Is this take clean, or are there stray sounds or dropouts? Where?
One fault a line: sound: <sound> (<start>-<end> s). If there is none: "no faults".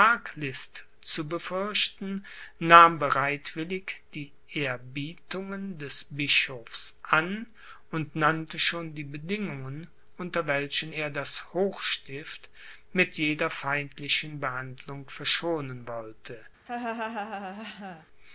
sound: laugh (16.7-18.1 s)